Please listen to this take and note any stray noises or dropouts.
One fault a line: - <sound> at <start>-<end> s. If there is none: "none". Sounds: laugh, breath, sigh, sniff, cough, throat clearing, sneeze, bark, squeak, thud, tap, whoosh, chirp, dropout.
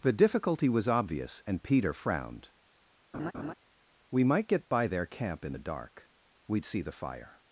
- laugh at 3.1-3.5 s